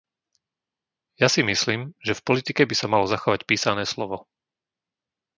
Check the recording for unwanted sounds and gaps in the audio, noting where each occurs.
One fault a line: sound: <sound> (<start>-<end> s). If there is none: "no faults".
no faults